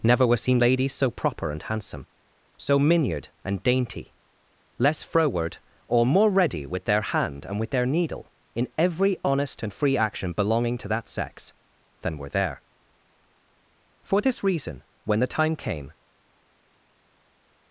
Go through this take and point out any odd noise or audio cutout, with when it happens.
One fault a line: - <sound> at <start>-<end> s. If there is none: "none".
none